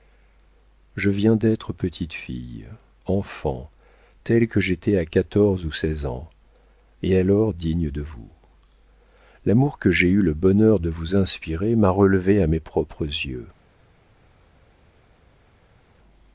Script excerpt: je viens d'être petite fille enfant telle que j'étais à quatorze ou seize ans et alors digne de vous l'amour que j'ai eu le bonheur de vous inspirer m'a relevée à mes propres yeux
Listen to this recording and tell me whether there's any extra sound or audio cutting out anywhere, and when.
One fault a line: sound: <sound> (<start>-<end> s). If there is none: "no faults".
no faults